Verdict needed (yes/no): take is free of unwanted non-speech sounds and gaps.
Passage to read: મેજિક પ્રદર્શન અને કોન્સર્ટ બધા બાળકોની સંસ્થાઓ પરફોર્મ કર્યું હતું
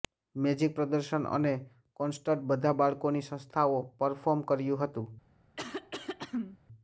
no